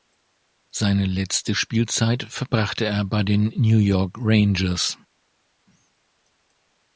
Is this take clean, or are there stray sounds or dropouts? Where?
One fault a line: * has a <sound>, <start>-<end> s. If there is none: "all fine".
all fine